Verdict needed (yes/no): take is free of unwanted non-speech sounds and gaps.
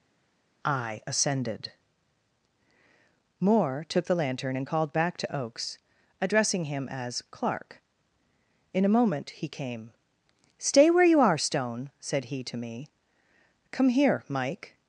yes